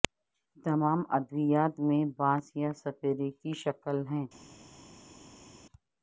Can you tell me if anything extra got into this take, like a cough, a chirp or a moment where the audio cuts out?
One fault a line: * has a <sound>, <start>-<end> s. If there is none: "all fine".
all fine